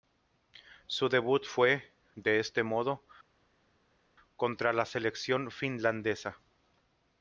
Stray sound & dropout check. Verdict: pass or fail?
pass